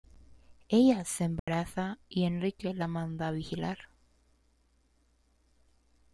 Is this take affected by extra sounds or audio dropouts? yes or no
yes